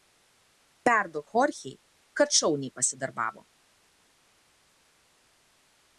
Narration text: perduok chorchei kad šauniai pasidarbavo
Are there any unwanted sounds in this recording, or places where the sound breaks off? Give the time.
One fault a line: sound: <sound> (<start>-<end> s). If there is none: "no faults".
no faults